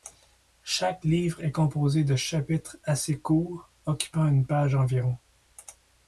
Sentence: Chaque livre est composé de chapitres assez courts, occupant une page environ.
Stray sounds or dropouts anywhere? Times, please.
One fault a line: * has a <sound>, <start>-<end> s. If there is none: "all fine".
all fine